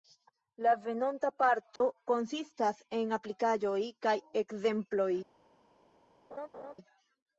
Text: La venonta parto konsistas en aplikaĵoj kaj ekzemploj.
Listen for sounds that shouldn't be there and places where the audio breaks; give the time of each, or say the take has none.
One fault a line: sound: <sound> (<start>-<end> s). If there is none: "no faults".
sound: dropout (1.8-1.8 s)
sound: laugh (6.3-6.7 s)